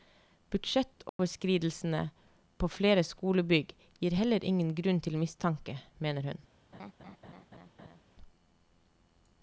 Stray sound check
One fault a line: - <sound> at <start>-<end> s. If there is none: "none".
- dropout at 1.1-1.2 s
- laugh at 6.7-8.0 s